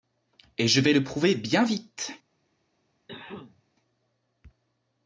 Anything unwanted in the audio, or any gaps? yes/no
yes